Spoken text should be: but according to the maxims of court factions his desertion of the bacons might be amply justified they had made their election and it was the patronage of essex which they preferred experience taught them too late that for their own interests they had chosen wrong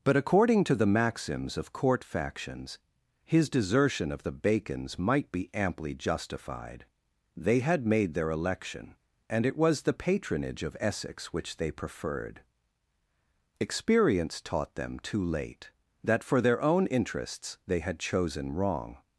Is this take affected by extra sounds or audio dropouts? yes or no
no